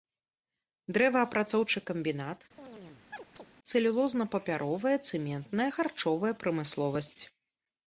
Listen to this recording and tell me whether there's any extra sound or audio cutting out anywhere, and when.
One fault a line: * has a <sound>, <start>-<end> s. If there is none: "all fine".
* has a chirp, 2.6-3.5 s